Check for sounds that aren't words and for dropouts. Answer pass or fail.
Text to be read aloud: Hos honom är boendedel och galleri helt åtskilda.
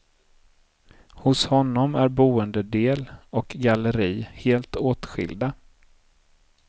pass